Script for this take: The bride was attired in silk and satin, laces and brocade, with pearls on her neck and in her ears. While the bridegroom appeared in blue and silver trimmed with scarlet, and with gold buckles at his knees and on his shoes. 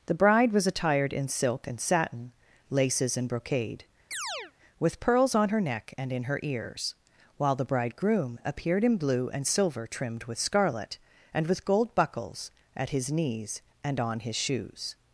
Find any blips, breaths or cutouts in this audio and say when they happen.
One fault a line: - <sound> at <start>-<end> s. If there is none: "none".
- chirp at 4.1-4.5 s